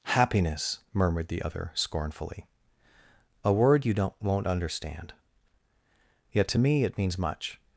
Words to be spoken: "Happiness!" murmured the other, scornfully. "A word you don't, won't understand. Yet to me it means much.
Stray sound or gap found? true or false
false